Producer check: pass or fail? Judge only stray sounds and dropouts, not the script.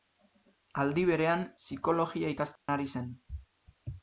fail